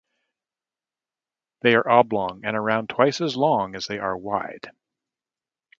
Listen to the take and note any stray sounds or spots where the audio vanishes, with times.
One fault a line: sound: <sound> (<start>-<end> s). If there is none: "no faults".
no faults